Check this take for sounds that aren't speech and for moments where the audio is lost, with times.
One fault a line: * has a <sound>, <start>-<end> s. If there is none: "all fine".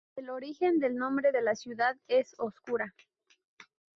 all fine